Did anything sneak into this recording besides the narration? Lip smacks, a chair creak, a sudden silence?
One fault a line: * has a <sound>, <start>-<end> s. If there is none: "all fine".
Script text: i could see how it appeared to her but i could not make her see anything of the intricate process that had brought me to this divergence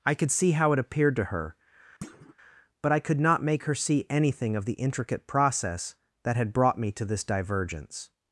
* has a thud, 2.0-2.3 s